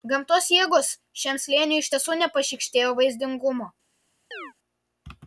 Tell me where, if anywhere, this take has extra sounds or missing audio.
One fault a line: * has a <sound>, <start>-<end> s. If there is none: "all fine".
* has a chirp, 4.3-4.5 s